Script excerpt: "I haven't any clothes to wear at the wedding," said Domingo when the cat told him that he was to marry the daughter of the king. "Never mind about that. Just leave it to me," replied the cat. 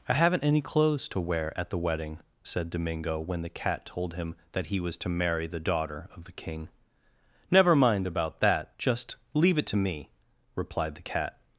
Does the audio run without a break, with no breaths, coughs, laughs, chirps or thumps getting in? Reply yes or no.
yes